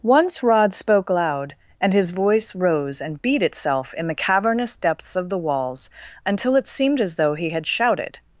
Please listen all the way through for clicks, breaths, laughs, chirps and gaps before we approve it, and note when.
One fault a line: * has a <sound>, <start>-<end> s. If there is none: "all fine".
all fine